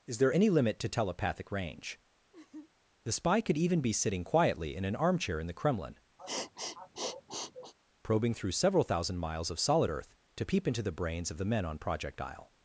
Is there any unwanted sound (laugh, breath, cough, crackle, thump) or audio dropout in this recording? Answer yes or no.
yes